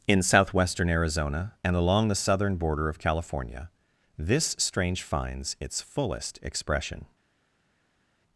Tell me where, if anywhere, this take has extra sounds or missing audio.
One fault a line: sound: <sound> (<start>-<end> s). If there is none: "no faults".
no faults